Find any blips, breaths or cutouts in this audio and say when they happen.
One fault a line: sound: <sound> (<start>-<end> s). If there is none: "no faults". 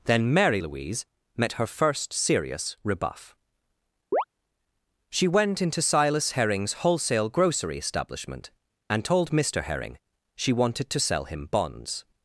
sound: chirp (4.1-4.2 s)